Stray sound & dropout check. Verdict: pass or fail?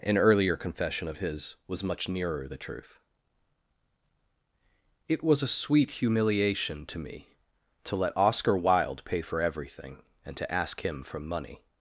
pass